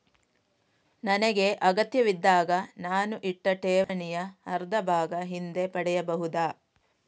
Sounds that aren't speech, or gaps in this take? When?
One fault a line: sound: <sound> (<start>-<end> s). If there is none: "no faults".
sound: dropout (3.8-3.9 s)